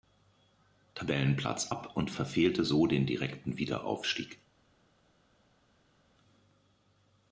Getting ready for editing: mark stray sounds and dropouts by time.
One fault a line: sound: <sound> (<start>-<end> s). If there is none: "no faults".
no faults